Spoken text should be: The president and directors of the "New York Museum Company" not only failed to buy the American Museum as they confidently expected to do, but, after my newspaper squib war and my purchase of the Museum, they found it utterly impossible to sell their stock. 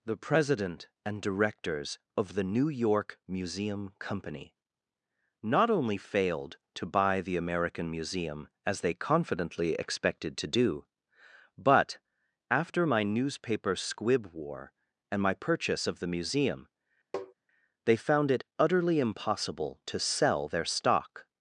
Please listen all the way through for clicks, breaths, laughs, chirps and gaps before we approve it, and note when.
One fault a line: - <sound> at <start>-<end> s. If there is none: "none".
- tap at 17.1-17.3 s